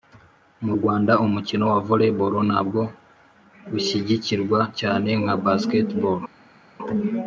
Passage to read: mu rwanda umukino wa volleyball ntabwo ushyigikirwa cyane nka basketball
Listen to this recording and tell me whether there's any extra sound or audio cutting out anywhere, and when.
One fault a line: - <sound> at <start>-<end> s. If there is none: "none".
none